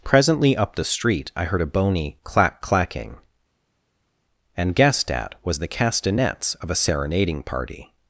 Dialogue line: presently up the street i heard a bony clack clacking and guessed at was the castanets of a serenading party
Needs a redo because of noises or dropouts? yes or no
no